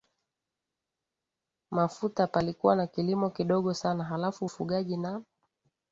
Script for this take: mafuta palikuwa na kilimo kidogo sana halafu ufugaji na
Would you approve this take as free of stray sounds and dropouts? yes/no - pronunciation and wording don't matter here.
yes